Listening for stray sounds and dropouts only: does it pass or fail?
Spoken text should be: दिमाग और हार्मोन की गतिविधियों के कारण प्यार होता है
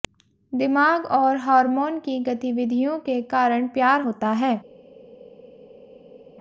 pass